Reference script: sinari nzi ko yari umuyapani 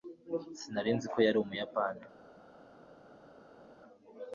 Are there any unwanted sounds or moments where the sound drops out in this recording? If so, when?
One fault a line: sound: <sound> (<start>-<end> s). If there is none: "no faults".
no faults